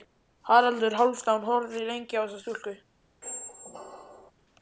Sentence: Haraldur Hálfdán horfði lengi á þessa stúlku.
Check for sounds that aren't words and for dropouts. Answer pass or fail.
fail